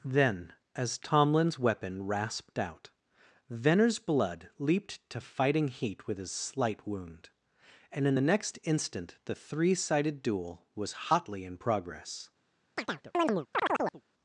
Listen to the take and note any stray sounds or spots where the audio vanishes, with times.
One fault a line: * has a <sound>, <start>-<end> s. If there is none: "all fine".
* has a chirp, 12.8-14.0 s